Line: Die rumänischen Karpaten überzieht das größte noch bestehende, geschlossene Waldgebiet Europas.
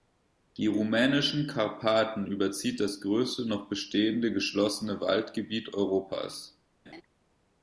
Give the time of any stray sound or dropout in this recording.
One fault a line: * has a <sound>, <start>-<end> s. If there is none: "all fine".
* has a laugh, 6.9-7.0 s